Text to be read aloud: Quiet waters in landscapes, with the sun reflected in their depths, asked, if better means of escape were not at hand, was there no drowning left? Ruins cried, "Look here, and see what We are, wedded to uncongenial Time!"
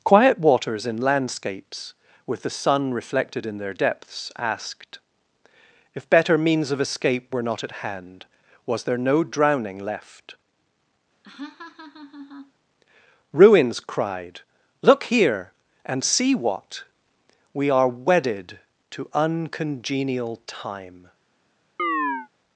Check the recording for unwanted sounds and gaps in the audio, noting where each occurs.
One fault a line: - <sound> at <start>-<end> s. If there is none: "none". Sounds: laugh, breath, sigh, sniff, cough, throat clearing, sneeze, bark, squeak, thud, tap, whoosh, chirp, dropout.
- laugh at 11.2-12.5 s
- chirp at 21.8-22.3 s